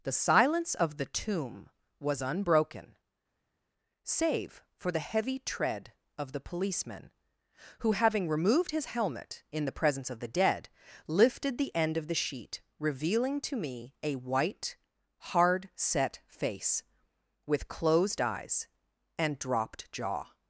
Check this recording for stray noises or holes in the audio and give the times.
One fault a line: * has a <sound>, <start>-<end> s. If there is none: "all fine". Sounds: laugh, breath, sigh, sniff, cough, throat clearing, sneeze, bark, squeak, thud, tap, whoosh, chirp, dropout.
all fine